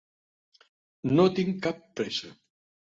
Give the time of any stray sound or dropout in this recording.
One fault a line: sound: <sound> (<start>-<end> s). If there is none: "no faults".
no faults